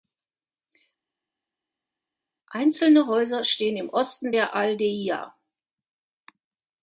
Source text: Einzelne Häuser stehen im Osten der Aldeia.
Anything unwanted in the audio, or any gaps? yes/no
no